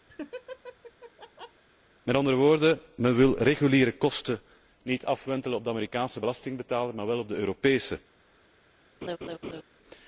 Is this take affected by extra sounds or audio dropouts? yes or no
yes